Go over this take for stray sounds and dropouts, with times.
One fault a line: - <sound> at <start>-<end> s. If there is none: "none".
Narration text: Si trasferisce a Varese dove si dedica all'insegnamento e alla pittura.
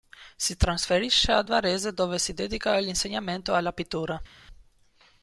none